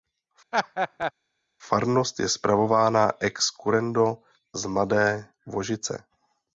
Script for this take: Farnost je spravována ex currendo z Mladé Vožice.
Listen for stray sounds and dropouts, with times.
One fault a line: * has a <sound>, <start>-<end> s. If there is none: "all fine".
* has a laugh, 0.5-1.1 s